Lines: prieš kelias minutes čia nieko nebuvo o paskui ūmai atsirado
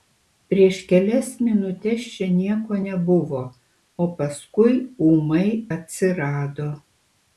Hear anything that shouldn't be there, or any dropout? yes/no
no